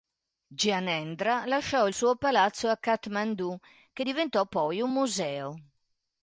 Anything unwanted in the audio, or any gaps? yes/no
no